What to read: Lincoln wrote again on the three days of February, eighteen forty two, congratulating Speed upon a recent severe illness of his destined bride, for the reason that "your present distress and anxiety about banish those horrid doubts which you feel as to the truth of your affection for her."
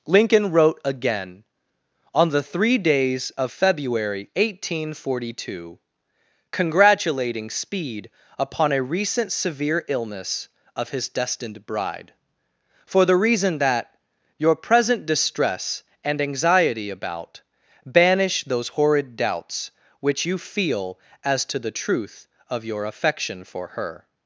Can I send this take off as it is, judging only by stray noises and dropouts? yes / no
yes